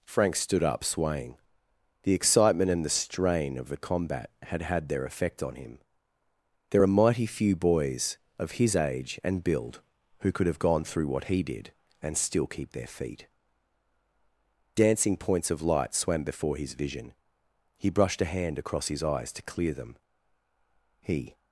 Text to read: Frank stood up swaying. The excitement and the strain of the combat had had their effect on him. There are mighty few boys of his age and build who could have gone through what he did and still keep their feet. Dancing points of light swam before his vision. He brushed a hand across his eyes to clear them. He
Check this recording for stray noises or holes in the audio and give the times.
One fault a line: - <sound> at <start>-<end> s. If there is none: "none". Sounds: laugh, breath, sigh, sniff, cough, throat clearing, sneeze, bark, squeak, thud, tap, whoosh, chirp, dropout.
none